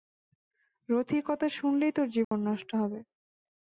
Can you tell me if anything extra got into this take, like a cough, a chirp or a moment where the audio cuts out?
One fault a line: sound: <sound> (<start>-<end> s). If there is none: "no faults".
sound: dropout (2.2-2.3 s)